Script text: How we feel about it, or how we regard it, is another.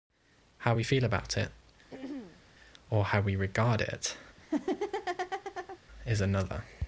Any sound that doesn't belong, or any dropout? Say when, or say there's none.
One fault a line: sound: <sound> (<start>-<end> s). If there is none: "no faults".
sound: throat clearing (1.9-2.4 s)
sound: laugh (4.4-5.8 s)